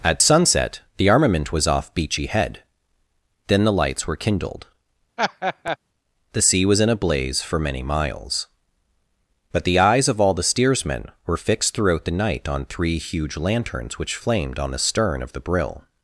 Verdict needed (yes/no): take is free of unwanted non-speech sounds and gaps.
no